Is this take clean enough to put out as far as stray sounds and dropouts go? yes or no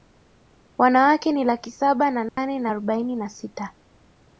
no